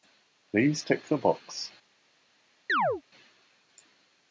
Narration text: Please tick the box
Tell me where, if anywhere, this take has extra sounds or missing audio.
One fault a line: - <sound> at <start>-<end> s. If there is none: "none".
- chirp at 2.7-3.0 s